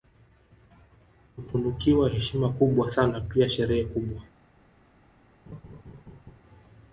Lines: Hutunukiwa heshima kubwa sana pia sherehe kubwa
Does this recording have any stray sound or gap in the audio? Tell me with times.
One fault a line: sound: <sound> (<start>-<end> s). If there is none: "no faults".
sound: laugh (5.5-6.4 s)